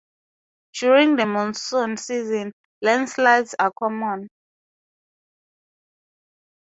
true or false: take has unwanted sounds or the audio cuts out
false